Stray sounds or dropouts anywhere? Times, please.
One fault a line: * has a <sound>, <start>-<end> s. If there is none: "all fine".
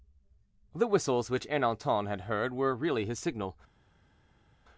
all fine